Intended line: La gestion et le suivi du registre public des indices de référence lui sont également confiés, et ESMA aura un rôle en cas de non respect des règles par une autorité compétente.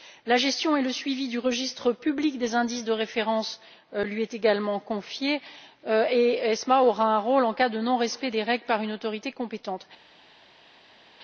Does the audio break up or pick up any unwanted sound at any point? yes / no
no